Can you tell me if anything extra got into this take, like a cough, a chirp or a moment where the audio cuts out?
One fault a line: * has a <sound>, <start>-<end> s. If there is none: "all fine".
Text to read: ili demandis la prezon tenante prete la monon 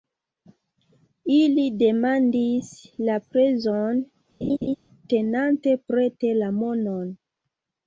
* has a laugh, 4.4-4.8 s